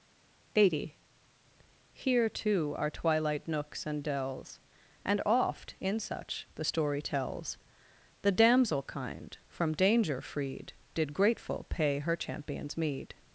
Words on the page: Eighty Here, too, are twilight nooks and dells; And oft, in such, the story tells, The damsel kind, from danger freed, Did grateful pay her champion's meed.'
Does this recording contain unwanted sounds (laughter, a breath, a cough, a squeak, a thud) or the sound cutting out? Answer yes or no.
no